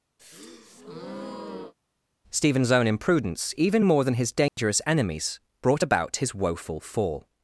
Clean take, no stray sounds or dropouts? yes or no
no